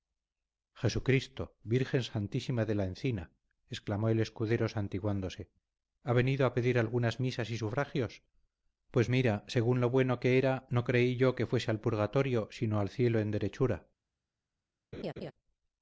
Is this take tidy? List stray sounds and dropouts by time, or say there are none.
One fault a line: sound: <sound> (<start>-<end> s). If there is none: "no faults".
sound: laugh (14.9-15.3 s)